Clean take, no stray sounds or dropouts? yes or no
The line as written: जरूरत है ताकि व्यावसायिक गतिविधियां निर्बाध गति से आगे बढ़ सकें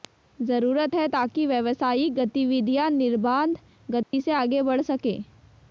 no